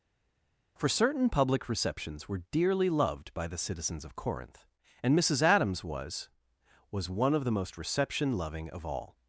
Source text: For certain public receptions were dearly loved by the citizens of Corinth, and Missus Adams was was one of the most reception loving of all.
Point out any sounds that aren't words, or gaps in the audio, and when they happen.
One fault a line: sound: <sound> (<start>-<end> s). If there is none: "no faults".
no faults